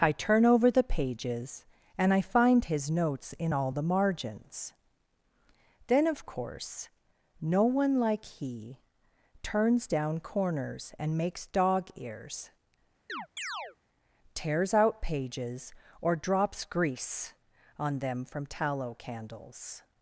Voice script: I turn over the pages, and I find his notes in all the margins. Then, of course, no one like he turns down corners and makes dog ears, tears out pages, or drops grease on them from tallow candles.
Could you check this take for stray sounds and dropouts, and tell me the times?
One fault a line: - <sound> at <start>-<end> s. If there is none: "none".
- chirp at 13.1-13.8 s